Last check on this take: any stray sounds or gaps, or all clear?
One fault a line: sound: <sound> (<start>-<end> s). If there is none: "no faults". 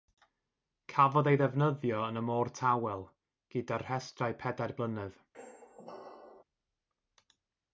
sound: squeak (5.3-6.4 s)